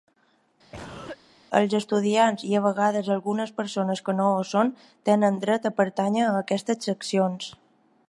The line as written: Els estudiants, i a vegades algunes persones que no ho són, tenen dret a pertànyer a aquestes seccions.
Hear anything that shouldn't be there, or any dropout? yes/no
yes